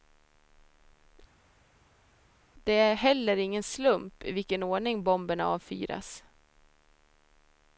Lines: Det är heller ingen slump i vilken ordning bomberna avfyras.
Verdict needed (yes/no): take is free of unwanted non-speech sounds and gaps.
yes